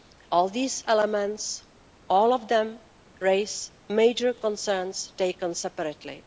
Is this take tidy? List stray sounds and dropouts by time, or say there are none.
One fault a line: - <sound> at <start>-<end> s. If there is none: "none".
none